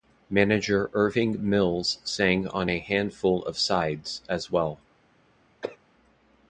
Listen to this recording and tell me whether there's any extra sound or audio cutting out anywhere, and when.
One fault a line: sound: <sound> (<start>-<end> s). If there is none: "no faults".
sound: cough (5.6-5.8 s)